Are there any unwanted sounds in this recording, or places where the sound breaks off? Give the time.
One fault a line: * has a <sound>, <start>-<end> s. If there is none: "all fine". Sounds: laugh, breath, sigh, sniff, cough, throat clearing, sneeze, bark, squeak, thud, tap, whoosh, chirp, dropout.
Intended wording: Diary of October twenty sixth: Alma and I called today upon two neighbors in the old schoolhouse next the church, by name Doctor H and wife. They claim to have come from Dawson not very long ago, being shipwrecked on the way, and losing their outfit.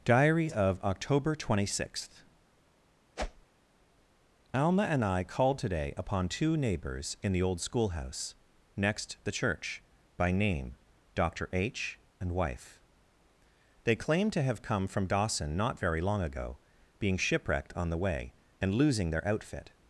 * has a whoosh, 3.2-3.5 s